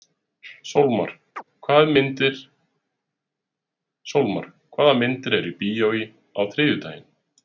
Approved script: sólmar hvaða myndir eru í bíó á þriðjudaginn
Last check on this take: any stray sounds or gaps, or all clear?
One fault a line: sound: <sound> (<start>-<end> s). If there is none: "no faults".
sound: chirp (1.4-1.4 s)